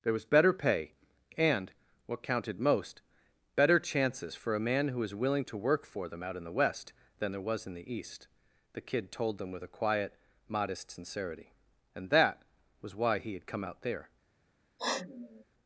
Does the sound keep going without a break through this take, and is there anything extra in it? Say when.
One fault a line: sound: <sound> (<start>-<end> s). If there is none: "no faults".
sound: sniff (14.8-15.4 s)